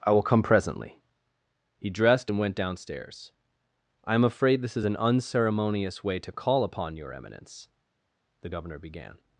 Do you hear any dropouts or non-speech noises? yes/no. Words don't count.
no